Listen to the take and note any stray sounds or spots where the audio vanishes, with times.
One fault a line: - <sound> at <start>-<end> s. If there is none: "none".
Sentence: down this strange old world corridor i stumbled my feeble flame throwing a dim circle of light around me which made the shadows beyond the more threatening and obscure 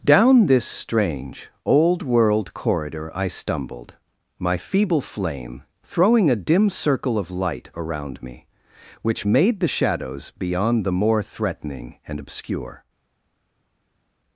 none